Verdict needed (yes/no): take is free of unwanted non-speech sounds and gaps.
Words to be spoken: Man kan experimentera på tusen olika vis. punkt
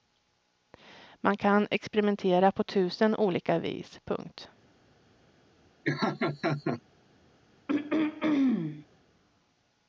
no